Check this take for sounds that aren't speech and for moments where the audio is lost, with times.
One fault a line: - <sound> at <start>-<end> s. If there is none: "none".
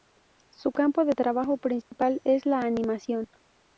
- dropout at 1.8-1.9 s